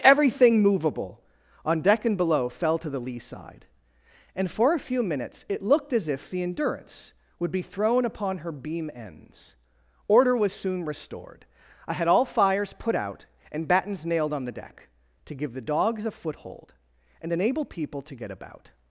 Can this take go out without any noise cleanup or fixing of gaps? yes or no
yes